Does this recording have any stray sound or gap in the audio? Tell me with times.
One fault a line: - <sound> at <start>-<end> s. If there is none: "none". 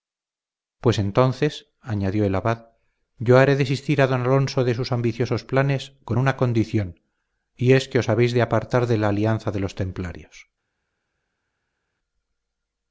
none